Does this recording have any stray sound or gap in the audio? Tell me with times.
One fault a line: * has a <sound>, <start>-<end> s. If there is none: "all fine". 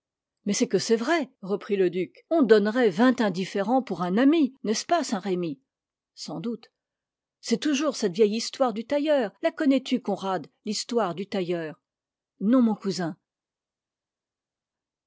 all fine